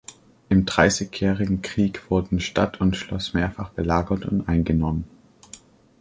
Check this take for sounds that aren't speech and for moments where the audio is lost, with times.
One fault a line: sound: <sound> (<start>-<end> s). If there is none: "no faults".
no faults